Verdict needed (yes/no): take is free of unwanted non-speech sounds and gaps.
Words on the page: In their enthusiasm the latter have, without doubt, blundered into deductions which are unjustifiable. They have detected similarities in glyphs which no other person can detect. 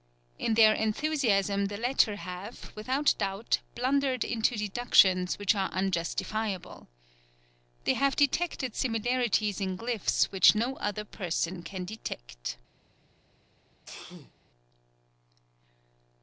no